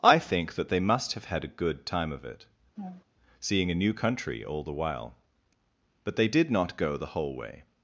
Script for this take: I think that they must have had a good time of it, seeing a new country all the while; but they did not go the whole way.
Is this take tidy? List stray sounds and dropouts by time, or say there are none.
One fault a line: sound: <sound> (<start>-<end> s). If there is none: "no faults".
sound: laugh (2.8-3.0 s)